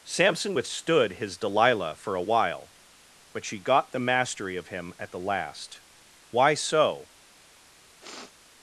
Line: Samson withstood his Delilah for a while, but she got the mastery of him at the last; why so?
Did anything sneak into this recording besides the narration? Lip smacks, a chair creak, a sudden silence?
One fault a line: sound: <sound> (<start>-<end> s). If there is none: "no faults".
sound: sniff (8.0-8.3 s)